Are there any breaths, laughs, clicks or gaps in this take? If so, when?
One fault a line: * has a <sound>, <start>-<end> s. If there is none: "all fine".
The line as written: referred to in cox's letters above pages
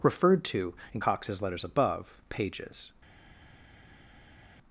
all fine